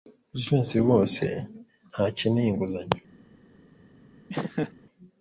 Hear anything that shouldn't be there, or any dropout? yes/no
yes